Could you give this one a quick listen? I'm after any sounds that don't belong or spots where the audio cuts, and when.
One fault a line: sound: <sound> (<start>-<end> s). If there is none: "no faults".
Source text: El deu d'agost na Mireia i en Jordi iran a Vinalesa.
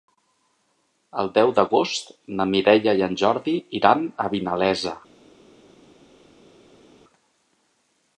no faults